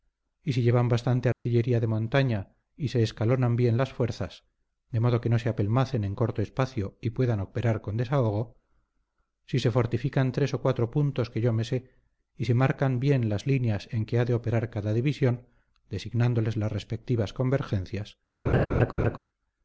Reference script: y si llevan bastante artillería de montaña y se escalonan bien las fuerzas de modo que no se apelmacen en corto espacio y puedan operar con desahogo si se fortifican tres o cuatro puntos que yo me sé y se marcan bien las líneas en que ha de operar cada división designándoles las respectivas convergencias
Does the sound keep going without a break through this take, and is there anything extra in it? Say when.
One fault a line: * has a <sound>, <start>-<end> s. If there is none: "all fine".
* has a dropout, 1.3-1.5 s
* has a laugh, 18.5-19.2 s